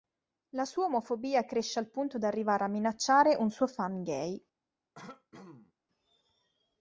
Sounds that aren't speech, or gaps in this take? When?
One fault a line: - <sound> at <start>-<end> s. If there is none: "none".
- throat clearing at 4.9-5.7 s